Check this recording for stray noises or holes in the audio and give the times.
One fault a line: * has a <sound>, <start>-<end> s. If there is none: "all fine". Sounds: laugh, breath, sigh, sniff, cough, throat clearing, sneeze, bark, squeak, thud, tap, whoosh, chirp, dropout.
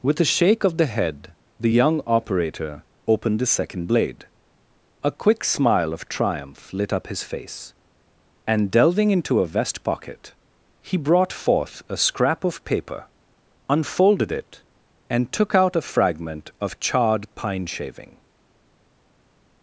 all fine